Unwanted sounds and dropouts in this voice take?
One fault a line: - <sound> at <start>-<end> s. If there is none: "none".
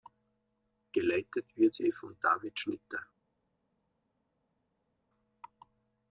none